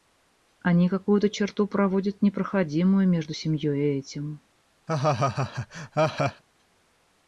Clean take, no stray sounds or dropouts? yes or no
no